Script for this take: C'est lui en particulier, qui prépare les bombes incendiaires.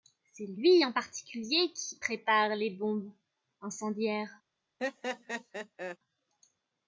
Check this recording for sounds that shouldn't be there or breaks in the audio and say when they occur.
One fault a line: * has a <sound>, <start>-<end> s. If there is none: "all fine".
* has a laugh, 4.8-6.0 s